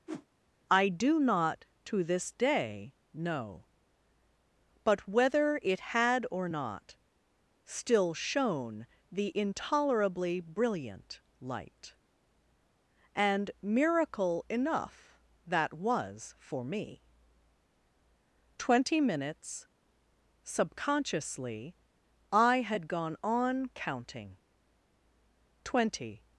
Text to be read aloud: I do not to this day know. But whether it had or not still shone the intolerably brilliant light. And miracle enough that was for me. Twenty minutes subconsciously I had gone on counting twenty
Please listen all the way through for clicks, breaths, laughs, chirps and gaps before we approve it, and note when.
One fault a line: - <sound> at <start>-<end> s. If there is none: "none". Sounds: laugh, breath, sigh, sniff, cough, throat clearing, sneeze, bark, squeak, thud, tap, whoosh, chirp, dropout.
- whoosh at 0.1-0.3 s